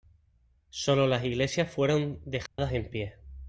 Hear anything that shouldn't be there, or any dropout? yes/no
yes